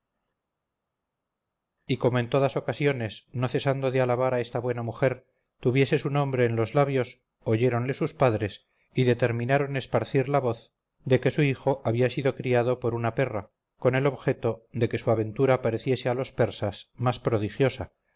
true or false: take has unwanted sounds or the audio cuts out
false